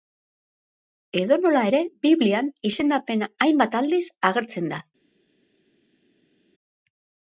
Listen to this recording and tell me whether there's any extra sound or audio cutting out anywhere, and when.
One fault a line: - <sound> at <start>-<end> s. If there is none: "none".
none